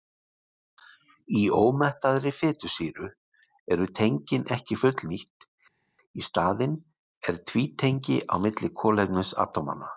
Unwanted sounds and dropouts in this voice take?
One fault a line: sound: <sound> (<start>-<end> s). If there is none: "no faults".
no faults